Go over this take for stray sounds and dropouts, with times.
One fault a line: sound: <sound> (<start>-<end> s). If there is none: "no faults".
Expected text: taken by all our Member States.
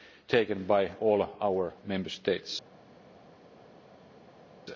no faults